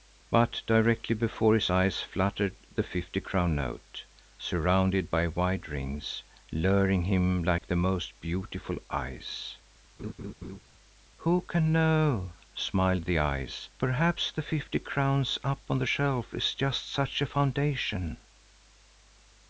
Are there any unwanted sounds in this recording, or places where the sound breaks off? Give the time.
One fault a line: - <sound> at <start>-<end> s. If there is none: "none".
- dropout at 7.6-7.6 s
- laugh at 10.0-10.6 s